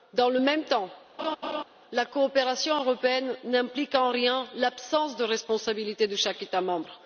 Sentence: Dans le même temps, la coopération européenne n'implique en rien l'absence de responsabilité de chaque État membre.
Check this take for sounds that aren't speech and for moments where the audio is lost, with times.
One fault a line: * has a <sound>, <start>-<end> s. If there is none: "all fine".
* has a laugh, 1.2-1.6 s